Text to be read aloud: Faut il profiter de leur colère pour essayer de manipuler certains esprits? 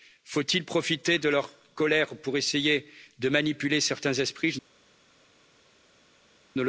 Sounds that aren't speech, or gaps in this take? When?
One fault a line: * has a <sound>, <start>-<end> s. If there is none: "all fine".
all fine